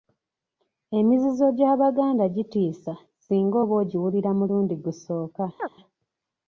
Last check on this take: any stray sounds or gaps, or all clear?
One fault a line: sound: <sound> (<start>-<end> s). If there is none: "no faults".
sound: chirp (5.6-5.7 s)